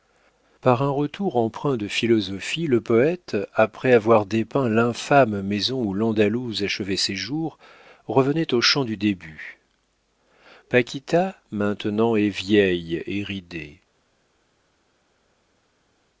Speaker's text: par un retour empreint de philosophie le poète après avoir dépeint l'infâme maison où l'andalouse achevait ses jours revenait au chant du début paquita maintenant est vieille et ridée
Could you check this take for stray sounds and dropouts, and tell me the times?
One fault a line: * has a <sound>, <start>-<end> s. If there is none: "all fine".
all fine